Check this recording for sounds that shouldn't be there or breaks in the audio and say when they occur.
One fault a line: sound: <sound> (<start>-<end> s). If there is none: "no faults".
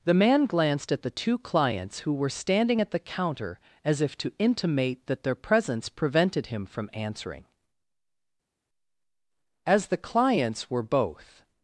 no faults